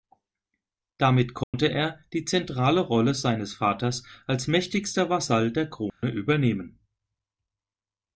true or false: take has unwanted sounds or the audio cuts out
true